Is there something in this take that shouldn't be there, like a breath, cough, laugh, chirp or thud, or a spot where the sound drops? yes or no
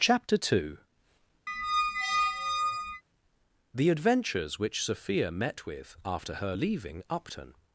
yes